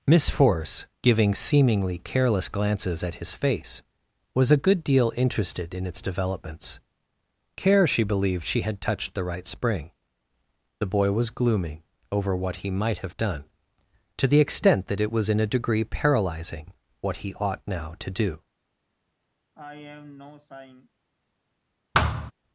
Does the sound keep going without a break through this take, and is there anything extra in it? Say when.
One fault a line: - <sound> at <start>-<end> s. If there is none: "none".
- sigh at 19.5-20.9 s
- thud at 21.9-22.3 s